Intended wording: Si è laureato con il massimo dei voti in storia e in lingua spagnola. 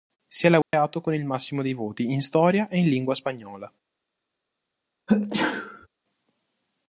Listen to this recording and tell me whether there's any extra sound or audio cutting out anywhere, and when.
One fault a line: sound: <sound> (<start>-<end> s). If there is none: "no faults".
sound: dropout (0.6-0.7 s)
sound: sneeze (5.1-5.9 s)